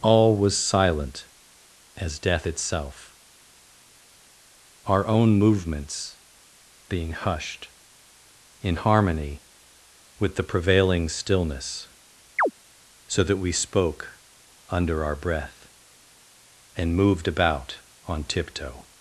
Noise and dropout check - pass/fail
fail